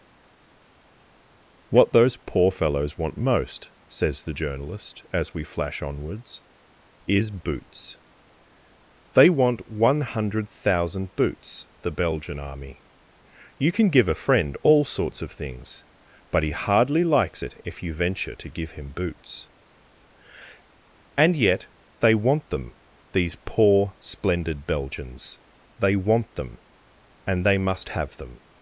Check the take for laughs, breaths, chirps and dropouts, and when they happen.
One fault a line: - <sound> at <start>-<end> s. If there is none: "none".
none